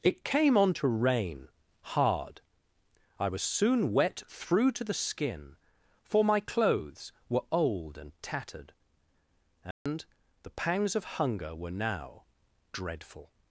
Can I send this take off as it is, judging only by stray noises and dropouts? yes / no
no